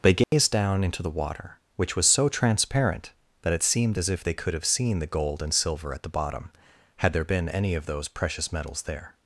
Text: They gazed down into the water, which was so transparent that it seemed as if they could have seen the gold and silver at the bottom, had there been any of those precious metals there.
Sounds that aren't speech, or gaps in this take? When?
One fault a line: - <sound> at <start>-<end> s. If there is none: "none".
- dropout at 0.2-0.3 s